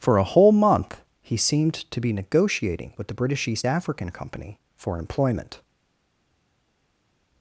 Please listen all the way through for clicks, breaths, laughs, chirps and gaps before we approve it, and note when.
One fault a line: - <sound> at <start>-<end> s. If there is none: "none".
none